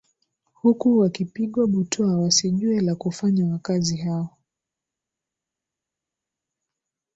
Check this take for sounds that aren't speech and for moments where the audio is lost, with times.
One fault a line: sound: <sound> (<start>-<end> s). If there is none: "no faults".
no faults